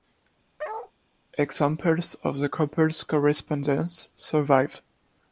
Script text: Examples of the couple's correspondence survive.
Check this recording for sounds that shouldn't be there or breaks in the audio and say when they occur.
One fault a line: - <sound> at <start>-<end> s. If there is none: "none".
- bark at 0.6-0.9 s